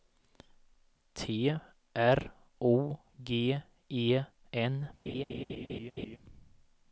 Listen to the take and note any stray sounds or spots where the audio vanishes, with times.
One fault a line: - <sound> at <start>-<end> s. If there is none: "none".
- laugh at 5.1-6.2 s